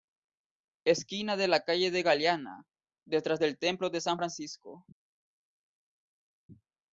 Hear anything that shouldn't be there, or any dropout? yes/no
no